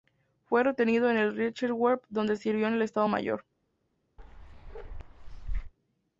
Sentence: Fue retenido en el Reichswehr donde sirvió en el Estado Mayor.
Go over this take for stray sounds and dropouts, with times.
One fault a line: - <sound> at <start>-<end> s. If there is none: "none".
- bark at 4.2-5.7 s